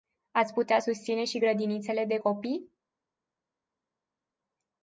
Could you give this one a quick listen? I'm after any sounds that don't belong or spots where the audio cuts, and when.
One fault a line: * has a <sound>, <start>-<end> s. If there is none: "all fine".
all fine